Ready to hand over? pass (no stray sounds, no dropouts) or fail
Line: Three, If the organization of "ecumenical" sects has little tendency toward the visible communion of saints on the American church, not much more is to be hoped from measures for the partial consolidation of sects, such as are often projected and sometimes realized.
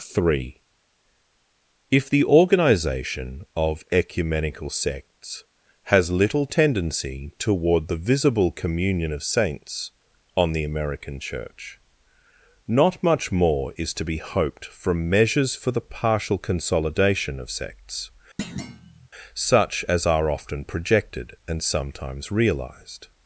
fail